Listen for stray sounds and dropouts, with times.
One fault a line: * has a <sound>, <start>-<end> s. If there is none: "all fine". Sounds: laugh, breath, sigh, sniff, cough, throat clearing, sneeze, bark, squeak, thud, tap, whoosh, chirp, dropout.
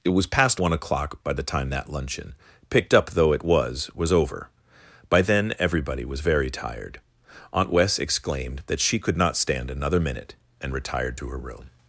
all fine